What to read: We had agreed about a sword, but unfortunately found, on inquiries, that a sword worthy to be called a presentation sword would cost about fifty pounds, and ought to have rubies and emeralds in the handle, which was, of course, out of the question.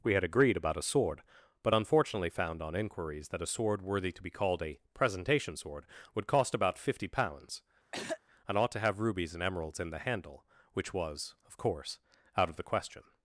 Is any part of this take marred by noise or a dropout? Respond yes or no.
yes